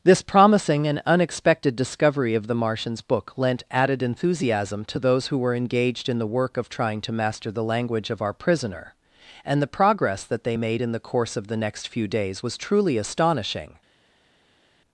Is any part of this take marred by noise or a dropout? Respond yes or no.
no